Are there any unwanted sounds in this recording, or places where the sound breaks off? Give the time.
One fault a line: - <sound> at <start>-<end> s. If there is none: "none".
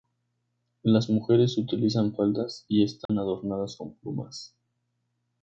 - dropout at 3.1-3.1 s